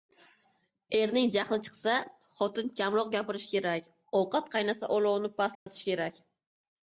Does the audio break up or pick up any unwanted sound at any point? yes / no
yes